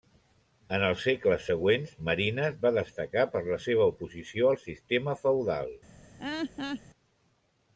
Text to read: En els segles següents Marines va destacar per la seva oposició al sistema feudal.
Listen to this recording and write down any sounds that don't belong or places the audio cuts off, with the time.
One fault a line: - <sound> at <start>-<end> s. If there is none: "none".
- laugh at 6.2-6.8 s